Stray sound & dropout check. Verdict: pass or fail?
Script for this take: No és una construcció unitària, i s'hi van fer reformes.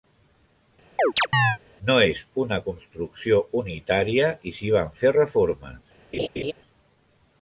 fail